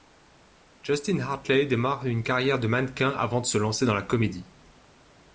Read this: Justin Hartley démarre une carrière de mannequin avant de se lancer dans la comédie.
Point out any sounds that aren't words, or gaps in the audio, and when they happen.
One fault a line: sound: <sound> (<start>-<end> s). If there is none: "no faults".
no faults